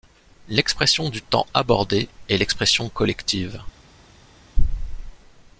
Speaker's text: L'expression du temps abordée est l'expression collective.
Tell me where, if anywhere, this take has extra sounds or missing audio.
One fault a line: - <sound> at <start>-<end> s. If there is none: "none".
none